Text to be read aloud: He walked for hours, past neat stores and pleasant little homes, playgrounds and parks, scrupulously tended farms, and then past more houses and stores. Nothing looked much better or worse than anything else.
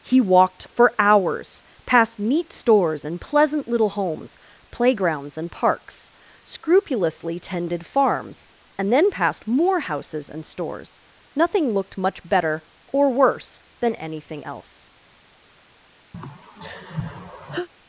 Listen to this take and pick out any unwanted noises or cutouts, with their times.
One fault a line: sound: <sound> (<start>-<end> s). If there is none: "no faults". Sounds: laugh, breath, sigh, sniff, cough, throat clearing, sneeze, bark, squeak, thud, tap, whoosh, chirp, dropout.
sound: sigh (16.1-17.7 s)